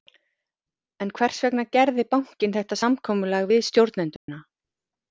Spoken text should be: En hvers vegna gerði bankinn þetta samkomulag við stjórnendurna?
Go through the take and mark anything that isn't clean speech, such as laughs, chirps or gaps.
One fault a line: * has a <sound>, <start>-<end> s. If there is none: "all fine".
* has a dropout, 4.2-4.3 s